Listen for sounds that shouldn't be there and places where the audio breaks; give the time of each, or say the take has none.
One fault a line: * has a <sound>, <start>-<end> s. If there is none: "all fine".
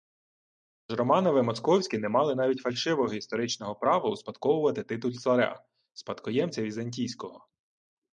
all fine